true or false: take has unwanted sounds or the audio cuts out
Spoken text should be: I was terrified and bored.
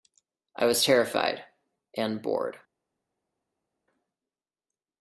false